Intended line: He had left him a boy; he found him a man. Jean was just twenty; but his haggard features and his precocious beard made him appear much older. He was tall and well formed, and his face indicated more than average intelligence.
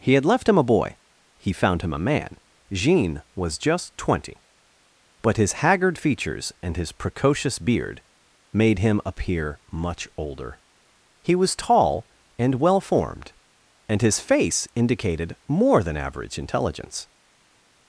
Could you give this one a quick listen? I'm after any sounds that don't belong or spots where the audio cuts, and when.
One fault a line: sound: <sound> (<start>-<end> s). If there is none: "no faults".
no faults